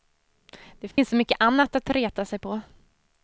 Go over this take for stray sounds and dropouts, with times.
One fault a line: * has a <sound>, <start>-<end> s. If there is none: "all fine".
* has a dropout, 0.9-1.0 s